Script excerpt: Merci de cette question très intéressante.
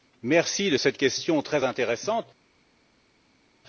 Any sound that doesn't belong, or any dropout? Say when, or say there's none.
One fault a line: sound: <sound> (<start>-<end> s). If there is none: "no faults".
no faults